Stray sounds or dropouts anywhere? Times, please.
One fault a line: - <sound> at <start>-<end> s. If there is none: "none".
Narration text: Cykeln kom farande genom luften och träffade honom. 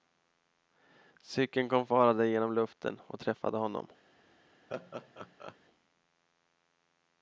- laugh at 4.7-5.6 s